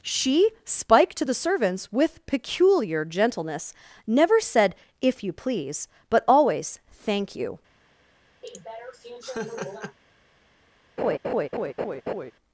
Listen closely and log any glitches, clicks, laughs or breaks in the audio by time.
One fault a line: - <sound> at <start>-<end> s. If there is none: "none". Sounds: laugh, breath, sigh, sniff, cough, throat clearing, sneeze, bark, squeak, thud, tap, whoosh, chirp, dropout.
- laugh at 8.4-10.0 s
- laugh at 11.0-12.3 s